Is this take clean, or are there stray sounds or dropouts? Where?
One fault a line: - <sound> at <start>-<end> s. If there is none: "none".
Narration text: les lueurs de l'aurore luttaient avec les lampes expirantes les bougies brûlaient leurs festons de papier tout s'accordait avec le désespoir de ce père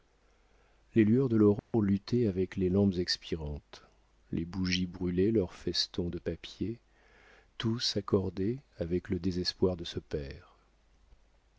- dropout at 1.6-1.7 s